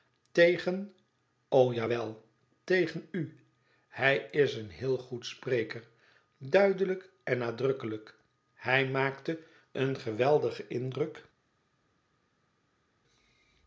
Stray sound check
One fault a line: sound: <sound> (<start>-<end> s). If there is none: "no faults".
no faults